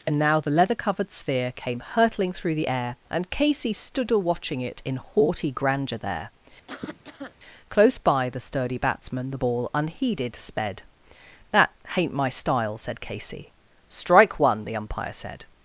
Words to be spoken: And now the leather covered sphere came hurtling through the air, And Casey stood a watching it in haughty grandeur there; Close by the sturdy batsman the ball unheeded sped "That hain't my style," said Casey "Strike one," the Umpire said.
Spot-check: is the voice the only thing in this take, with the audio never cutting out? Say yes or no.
no